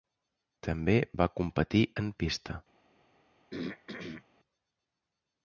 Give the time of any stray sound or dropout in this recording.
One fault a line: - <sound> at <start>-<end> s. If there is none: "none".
- throat clearing at 3.5-4.2 s